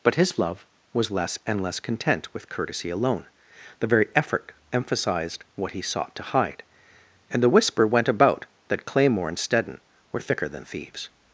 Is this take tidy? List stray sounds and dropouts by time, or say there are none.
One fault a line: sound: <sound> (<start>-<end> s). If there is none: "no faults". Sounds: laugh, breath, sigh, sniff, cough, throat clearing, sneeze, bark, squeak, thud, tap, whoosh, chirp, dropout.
no faults